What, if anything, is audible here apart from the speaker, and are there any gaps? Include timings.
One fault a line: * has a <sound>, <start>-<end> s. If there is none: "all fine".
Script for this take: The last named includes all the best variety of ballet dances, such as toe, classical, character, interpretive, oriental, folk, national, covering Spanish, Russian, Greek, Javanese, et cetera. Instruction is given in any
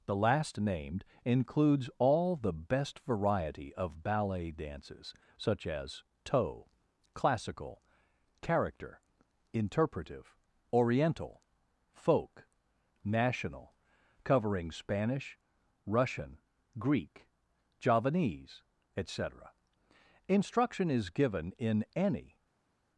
all fine